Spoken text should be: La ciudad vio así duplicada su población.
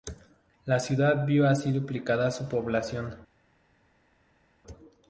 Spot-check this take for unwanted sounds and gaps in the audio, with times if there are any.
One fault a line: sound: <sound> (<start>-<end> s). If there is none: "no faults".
no faults